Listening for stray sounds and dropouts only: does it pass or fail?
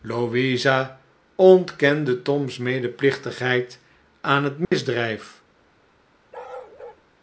fail